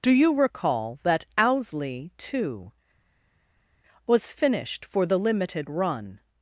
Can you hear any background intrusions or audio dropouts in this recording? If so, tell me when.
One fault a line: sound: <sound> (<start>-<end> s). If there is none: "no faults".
no faults